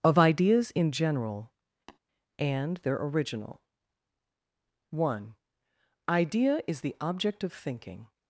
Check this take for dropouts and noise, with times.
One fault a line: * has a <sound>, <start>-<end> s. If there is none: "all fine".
* has a tap, 1.9-2.0 s